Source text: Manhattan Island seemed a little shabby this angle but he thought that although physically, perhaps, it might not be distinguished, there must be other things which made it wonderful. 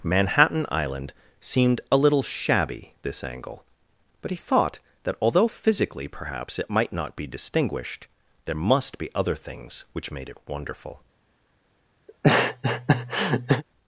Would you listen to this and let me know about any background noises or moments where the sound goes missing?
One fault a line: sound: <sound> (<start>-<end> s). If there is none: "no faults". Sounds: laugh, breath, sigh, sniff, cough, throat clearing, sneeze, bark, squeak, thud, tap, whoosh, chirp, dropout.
sound: laugh (12.1-13.6 s)